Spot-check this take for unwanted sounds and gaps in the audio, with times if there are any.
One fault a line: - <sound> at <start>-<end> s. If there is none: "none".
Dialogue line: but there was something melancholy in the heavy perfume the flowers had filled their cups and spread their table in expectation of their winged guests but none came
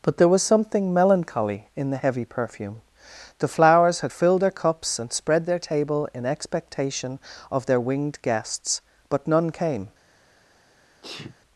- sneeze at 11.0-11.4 s